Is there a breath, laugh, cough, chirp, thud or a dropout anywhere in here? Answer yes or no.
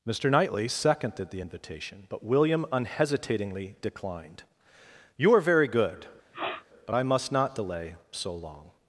yes